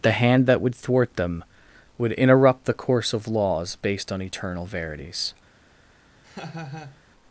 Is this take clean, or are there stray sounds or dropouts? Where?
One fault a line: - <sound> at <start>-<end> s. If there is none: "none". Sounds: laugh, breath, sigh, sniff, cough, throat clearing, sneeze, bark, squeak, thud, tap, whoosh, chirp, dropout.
- laugh at 6.2-7.0 s